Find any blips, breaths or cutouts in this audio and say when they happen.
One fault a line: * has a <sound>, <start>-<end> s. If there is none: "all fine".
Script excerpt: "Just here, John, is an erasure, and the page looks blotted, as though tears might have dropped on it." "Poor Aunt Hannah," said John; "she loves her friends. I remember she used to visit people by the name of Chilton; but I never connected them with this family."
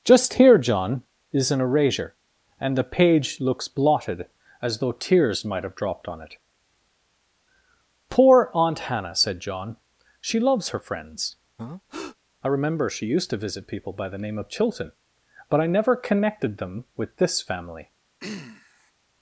* has a breath, 11.6-12.2 s
* has a throat clearing, 18.2-18.9 s